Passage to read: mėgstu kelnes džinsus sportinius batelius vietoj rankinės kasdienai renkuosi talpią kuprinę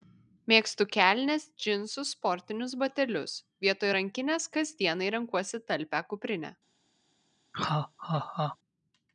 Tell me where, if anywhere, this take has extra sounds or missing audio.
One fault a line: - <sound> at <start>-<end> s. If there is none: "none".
- laugh at 7.5-8.6 s